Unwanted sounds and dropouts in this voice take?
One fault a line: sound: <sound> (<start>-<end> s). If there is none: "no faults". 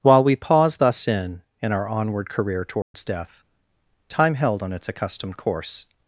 sound: dropout (2.8-2.9 s)